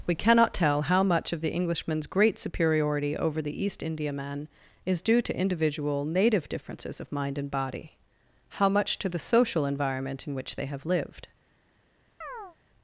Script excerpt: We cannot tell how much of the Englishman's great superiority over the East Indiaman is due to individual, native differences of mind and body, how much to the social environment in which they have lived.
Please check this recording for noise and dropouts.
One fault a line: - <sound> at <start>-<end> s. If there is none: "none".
- chirp at 12.2-12.6 s